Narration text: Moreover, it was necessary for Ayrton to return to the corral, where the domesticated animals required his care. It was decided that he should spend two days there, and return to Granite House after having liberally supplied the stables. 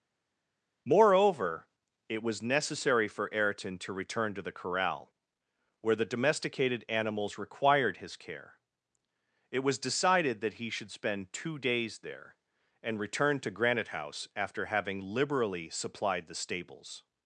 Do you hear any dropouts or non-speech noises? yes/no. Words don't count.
no